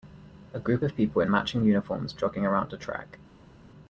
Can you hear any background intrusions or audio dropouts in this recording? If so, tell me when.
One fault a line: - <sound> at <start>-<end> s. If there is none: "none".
none